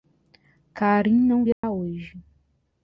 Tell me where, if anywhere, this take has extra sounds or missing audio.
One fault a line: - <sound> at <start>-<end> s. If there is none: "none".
- dropout at 1.5-1.6 s